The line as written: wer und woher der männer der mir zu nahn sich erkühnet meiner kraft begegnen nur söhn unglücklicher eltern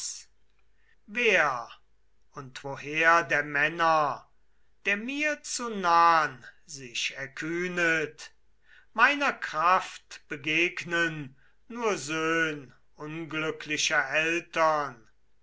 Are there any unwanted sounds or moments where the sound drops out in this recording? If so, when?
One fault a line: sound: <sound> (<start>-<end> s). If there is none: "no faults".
no faults